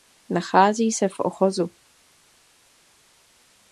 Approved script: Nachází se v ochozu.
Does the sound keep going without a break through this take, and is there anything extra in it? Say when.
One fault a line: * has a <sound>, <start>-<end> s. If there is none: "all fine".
all fine